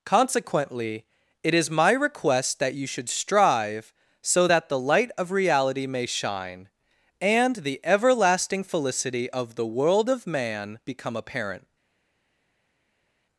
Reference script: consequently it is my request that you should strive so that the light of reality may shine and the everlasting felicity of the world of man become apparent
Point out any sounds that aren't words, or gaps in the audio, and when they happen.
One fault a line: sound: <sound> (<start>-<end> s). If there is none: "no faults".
no faults